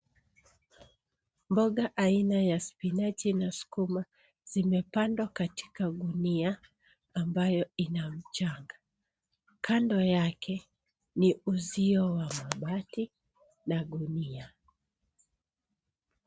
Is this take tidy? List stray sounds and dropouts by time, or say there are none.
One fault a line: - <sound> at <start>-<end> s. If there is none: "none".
none